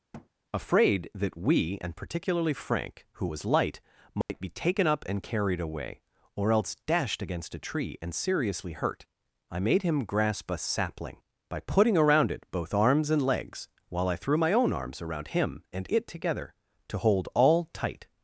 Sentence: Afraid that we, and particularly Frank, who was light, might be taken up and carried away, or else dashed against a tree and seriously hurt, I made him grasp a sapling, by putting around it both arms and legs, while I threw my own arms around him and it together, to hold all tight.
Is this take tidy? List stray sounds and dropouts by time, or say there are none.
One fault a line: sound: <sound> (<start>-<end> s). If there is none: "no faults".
sound: thud (0.1-0.3 s)
sound: dropout (4.2-4.3 s)